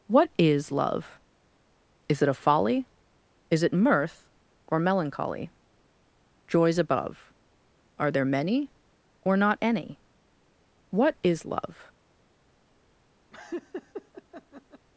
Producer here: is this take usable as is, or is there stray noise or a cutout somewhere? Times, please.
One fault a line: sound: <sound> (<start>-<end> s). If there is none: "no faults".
sound: laugh (13.3-14.9 s)